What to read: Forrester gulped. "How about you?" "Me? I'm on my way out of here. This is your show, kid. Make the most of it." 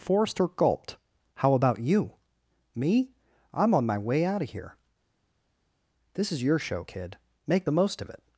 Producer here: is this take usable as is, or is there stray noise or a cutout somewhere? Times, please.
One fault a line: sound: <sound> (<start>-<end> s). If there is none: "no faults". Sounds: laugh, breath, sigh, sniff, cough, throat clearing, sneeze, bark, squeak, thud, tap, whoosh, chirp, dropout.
no faults